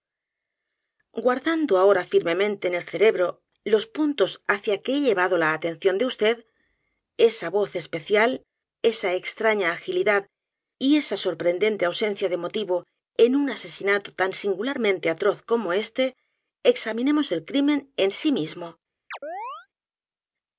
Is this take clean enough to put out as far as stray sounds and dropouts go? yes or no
no